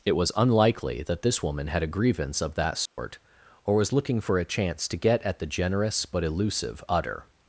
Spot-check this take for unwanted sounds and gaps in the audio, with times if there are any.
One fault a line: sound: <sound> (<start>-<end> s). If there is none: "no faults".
sound: dropout (2.9-3.0 s)